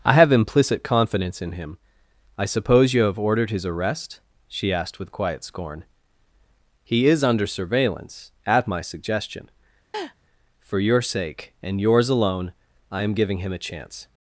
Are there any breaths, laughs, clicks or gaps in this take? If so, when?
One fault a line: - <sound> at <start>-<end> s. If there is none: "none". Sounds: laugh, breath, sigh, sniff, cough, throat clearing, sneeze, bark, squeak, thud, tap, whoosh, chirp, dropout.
- laugh at 9.9-10.1 s